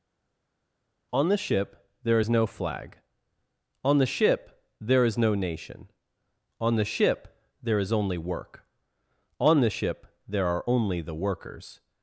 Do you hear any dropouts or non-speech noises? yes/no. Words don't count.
no